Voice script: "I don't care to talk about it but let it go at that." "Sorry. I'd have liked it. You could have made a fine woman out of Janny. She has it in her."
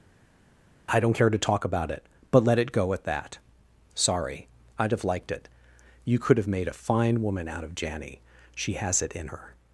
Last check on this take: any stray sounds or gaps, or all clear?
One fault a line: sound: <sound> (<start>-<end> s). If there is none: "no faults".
no faults